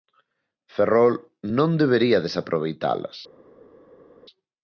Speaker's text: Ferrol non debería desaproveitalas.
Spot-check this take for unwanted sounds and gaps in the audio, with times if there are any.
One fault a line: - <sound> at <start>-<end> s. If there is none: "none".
none